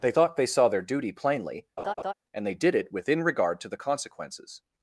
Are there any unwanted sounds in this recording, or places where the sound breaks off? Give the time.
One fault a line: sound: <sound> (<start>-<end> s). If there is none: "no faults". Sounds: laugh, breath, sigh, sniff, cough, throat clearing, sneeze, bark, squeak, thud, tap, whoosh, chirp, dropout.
sound: laugh (1.8-2.1 s)